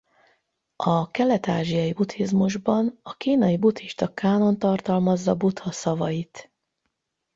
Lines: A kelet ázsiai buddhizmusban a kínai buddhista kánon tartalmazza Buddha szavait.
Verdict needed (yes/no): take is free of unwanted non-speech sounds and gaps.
yes